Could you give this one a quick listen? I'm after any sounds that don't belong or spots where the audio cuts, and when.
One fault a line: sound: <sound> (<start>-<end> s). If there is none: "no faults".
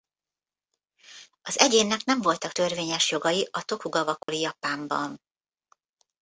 sound: dropout (4.2-4.3 s)